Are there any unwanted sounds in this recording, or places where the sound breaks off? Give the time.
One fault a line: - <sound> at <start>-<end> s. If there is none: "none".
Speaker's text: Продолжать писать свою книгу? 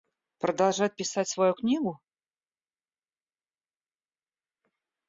none